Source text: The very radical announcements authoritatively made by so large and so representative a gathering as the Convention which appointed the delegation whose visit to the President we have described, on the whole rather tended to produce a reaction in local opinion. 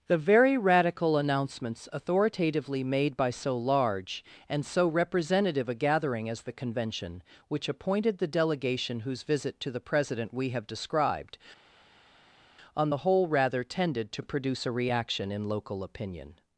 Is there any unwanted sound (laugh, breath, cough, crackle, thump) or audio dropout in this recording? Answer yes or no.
no